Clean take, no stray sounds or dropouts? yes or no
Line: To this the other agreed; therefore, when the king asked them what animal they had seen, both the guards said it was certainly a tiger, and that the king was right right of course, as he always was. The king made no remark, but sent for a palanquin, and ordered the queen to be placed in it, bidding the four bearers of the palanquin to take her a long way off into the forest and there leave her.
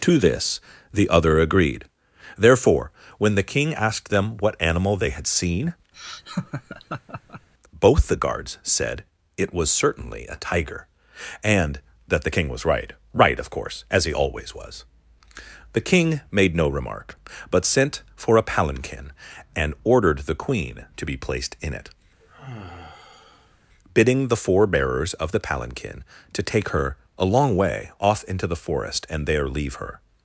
no